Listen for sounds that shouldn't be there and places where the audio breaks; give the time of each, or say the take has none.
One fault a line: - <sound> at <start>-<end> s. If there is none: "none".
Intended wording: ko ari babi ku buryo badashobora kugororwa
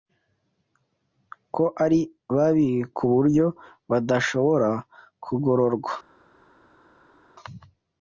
none